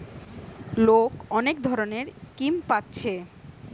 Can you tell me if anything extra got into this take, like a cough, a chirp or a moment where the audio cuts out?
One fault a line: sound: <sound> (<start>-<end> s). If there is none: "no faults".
no faults